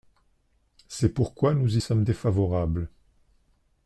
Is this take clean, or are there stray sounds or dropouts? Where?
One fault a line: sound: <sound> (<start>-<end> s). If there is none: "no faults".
no faults